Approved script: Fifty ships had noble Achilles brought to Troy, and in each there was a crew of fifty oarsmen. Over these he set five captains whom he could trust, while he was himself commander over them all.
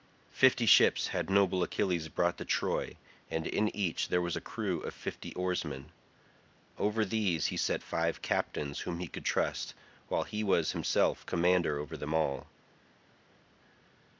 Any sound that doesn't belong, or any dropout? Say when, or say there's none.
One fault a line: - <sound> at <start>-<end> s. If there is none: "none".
none